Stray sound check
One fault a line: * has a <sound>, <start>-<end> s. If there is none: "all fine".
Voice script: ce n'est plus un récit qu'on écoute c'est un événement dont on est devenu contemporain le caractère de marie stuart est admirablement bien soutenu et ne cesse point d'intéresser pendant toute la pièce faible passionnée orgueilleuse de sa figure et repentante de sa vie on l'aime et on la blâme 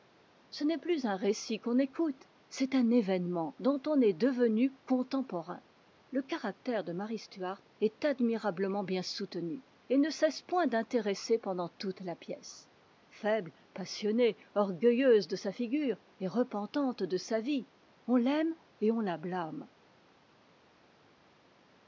all fine